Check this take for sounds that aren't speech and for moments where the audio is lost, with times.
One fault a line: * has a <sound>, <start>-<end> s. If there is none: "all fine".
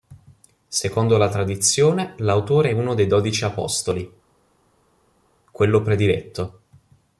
all fine